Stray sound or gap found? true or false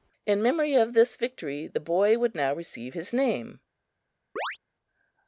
true